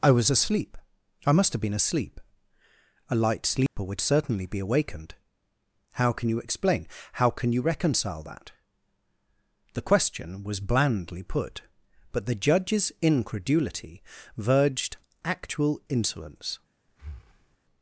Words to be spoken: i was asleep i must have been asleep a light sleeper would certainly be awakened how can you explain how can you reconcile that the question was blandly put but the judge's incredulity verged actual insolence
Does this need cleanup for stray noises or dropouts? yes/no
yes